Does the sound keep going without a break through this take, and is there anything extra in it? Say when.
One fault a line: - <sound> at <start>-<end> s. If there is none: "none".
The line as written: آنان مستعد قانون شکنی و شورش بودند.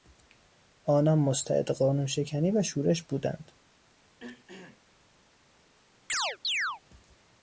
- throat clearing at 4.2-4.8 s
- chirp at 6.1-6.8 s